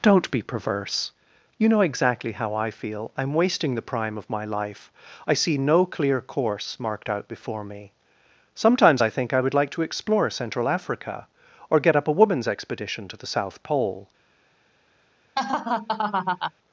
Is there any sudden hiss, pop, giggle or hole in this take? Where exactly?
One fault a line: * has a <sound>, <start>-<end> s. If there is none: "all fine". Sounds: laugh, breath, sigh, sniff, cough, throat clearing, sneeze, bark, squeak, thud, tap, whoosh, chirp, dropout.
* has a laugh, 15.4-16.5 s